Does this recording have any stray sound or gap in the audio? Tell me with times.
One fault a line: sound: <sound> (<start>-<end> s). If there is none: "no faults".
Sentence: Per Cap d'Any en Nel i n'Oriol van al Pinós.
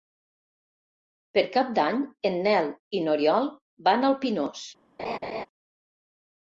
sound: laugh (5.0-5.5 s)